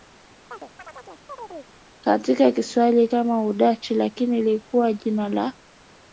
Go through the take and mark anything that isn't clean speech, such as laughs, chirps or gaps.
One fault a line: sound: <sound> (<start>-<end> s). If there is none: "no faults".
sound: chirp (0.5-1.8 s)